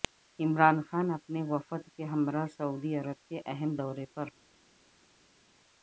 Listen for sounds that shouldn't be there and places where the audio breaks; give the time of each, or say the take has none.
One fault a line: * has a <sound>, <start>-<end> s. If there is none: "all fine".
all fine